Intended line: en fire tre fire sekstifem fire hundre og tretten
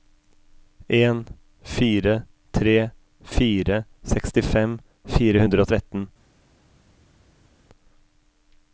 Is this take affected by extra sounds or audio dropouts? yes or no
no